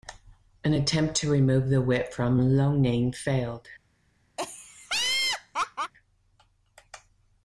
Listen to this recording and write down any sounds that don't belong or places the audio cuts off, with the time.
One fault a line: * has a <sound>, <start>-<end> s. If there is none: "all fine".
* has a laugh, 4.4-5.9 s